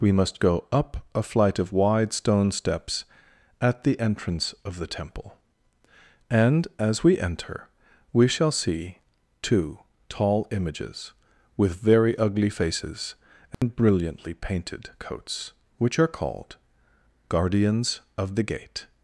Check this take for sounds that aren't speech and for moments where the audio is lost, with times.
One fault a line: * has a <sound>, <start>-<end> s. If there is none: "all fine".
* has a dropout, 13.5-13.6 s